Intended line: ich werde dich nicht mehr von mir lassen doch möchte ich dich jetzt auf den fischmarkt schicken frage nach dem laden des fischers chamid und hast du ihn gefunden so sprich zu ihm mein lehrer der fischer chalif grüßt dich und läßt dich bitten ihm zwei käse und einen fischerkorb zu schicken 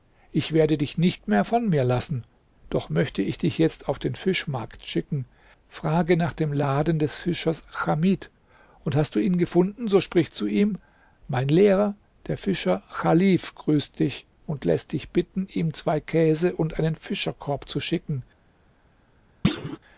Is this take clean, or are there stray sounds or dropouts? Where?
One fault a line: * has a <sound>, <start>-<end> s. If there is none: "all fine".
* has a thud, 19.4-19.8 s